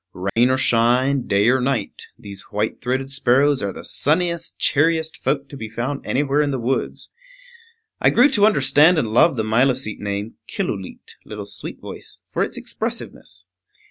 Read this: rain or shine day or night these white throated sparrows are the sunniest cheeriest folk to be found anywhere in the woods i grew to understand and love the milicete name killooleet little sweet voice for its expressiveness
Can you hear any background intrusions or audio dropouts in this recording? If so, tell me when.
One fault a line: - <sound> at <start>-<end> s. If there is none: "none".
- dropout at 0.3-0.4 s